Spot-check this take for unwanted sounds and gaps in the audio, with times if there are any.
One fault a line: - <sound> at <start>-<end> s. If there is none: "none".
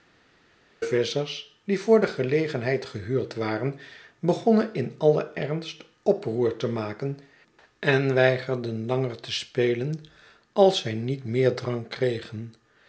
none